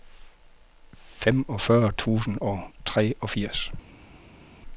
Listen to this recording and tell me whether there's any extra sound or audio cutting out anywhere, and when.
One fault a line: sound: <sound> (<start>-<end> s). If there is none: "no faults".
no faults